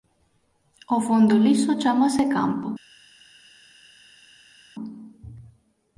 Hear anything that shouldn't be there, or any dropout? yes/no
no